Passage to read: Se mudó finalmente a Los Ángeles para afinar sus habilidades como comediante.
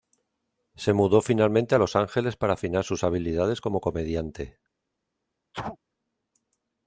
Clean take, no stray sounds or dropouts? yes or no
no